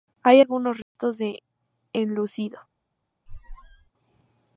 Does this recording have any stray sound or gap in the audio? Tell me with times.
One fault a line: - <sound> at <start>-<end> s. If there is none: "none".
- dropout at 0.8-1.0 s
- squeak at 3.3-3.9 s